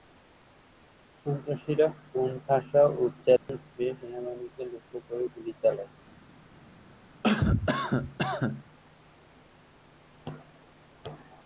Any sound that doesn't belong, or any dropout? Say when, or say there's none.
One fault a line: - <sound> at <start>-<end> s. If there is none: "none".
- dropout at 3.4-3.5 s
- cough at 7.2-8.6 s